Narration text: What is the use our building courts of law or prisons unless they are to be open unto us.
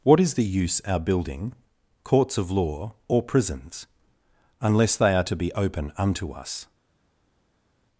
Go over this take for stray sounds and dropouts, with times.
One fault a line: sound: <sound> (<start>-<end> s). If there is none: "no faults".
no faults